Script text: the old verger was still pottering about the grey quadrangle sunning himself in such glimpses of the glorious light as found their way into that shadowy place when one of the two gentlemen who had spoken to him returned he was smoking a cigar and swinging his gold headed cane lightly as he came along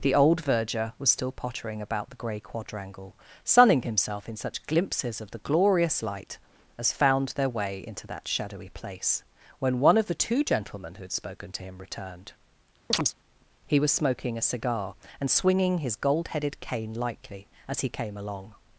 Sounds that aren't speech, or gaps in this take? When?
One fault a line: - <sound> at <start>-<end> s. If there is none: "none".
- chirp at 12.9-13.1 s